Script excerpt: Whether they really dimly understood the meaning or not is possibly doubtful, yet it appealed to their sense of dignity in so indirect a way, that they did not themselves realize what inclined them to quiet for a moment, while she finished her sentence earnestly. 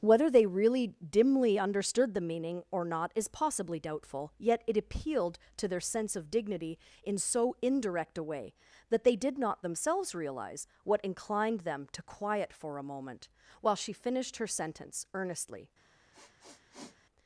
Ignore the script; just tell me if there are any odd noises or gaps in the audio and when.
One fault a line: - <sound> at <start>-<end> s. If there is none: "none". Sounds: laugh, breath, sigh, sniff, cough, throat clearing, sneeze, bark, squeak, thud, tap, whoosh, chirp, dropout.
- sniff at 16.1-17.0 s